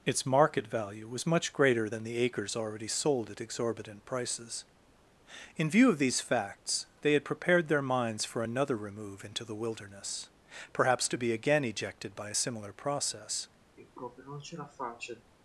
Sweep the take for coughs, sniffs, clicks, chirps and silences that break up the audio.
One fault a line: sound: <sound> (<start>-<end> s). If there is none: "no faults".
sound: sigh (13.8-15.3 s)